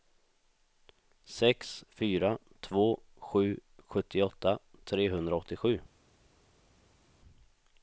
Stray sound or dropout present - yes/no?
no